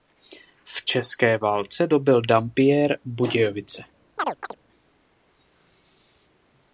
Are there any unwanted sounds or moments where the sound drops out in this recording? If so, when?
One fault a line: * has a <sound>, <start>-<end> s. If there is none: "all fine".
* has a chirp, 4.2-4.6 s